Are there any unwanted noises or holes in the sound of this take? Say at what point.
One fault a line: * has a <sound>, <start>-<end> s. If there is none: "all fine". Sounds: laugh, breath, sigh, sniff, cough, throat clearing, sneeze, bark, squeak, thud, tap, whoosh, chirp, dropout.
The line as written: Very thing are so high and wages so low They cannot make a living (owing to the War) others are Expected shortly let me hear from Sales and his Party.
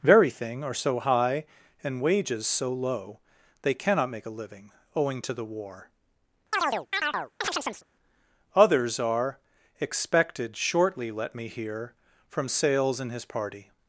* has a chirp, 6.5-7.8 s